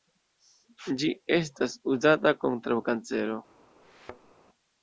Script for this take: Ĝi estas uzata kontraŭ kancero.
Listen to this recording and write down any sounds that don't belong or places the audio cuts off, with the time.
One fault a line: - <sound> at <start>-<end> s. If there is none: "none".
- thud at 3.8-4.3 s